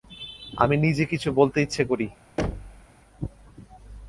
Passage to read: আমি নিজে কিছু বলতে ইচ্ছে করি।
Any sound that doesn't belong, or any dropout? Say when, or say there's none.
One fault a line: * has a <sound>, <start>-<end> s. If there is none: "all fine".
* has a thud, 2.4-2.9 s